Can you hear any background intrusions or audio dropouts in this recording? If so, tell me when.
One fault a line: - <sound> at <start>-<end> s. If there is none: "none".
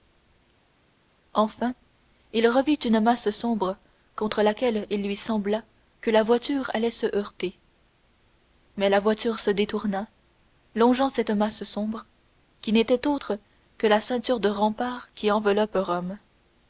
none